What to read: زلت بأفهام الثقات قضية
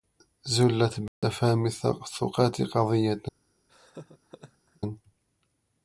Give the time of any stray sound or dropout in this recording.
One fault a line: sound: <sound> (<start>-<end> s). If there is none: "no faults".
sound: dropout (1.1-1.2 s)
sound: laugh (3.7-4.8 s)